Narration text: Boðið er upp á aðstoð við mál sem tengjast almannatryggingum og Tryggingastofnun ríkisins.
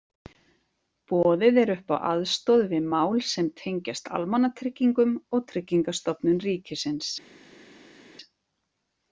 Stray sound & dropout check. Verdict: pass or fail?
pass